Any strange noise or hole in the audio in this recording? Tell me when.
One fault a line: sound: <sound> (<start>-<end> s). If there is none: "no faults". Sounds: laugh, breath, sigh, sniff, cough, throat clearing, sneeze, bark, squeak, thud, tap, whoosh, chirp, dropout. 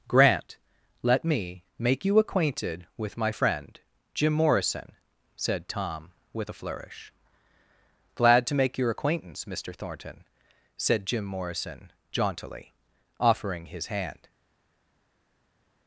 no faults